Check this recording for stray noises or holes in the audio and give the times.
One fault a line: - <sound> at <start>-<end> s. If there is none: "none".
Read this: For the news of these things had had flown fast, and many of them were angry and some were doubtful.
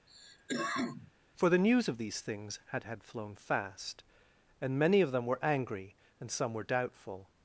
- cough at 0.1-1.1 s